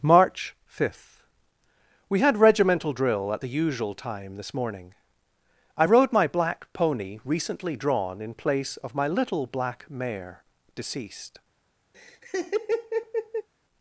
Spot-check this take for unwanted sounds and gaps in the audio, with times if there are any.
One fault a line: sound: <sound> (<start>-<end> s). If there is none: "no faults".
sound: laugh (11.9-13.5 s)